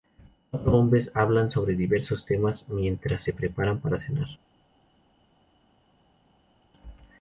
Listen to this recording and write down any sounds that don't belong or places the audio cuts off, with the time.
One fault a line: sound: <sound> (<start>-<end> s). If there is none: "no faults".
no faults